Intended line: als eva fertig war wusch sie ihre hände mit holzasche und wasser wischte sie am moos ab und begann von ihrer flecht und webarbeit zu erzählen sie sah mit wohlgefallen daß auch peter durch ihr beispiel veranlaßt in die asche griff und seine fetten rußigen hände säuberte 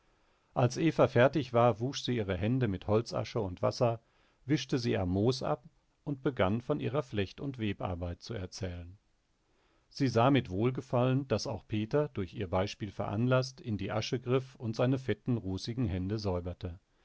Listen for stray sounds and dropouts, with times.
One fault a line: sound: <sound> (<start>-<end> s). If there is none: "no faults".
no faults